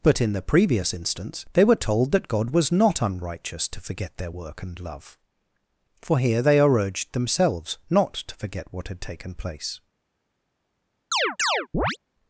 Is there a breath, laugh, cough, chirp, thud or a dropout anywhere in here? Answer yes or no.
yes